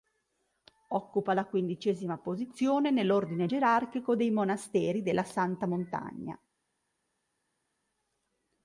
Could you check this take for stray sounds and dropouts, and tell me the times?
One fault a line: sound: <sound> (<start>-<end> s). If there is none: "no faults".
no faults